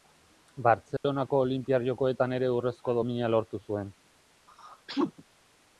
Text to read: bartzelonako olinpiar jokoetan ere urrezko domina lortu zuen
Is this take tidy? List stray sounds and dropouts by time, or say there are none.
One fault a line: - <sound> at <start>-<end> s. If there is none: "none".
- dropout at 1.0-1.0 s
- sneeze at 4.5-5.2 s